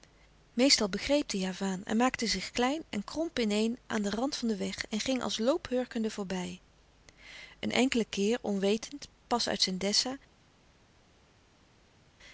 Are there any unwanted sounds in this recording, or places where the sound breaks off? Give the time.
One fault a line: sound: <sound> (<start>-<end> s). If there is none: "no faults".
no faults